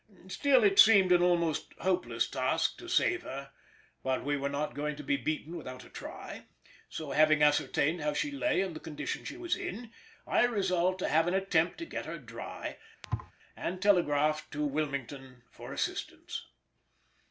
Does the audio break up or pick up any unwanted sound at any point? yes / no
yes